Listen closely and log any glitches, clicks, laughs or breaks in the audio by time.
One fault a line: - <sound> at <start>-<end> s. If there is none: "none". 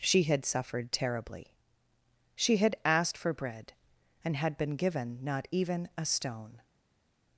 none